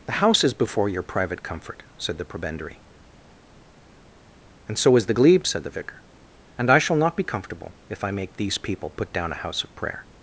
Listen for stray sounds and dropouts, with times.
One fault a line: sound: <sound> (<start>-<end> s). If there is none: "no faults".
no faults